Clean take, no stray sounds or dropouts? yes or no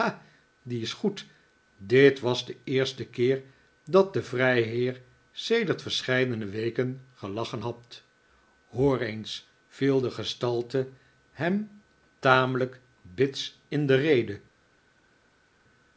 yes